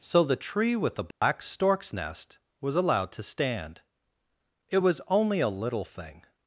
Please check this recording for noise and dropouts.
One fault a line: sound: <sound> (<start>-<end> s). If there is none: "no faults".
sound: dropout (1.1-1.2 s)